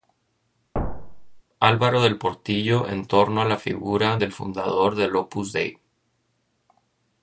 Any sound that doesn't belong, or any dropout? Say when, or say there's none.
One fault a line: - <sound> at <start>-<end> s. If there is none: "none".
- thud at 0.7-1.4 s